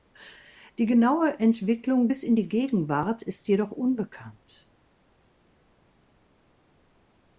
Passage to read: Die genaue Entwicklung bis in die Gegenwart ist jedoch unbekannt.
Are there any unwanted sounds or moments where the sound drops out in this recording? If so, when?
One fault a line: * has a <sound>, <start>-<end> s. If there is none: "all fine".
all fine